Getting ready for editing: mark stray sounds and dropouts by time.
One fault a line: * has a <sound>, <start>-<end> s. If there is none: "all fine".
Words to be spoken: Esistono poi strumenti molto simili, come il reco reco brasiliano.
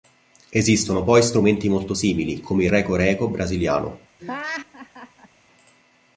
* has a laugh, 4.2-5.3 s